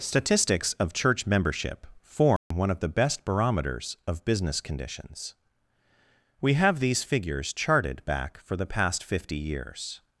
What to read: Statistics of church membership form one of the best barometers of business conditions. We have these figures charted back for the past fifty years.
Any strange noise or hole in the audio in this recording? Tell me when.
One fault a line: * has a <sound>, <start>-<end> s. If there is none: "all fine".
* has a dropout, 2.4-2.5 s